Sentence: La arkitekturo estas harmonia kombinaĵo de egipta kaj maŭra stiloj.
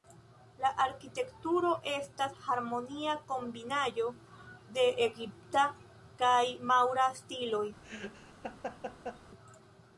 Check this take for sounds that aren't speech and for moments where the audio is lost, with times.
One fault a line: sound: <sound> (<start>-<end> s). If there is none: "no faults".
sound: laugh (7.8-9.2 s)